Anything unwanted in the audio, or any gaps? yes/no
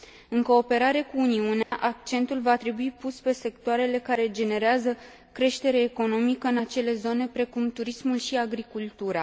yes